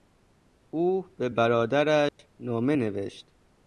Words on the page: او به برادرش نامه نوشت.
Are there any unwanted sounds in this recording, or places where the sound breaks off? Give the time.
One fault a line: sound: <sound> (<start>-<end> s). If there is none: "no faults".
sound: dropout (2.1-2.2 s)